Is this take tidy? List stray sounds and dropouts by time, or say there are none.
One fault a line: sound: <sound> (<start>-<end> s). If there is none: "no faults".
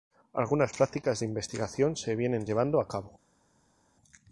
no faults